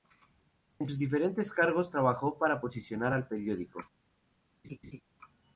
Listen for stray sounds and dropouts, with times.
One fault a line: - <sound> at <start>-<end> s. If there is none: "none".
- laugh at 4.6-5.0 s